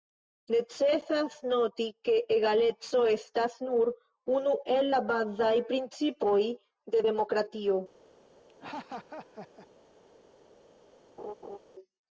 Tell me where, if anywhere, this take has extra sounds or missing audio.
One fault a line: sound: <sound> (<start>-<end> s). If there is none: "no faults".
sound: laugh (8.5-9.7 s)
sound: laugh (11.2-11.6 s)